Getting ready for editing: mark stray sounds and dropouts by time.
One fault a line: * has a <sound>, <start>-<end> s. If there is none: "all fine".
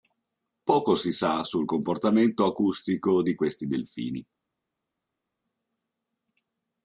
all fine